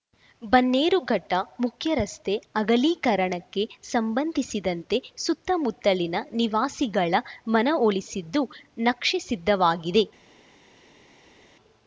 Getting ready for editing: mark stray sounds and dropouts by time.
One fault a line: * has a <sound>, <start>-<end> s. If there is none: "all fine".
all fine